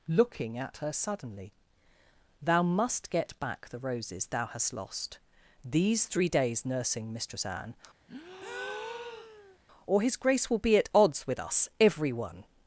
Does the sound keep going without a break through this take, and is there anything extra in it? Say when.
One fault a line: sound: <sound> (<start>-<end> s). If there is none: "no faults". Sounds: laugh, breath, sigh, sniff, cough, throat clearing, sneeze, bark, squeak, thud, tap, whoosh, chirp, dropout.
sound: breath (8.1-9.6 s)